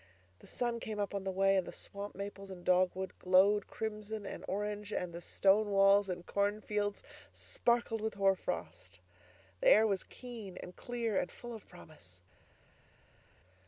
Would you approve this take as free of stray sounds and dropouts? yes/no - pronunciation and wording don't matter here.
yes